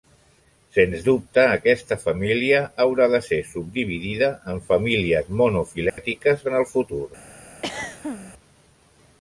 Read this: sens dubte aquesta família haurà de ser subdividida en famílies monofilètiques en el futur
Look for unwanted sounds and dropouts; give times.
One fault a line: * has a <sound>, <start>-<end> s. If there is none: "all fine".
* has a dropout, 5.9-6.0 s
* has a throat clearing, 7.6-8.3 s